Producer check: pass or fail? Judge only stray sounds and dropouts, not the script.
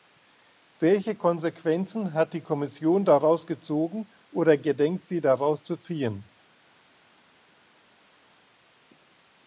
pass